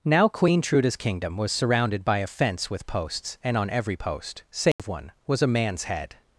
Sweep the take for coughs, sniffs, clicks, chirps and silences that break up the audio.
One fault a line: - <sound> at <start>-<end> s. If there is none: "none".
- dropout at 4.7-4.8 s